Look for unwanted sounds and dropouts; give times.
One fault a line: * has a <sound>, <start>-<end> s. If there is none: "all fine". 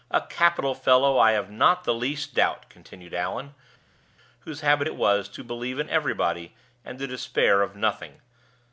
all fine